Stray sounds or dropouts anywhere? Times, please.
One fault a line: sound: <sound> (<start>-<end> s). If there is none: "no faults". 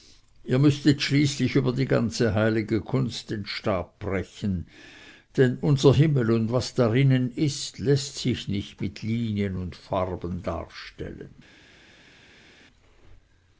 no faults